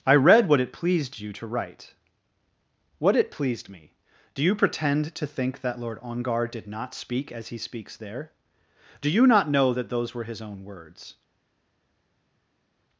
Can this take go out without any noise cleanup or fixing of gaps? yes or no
yes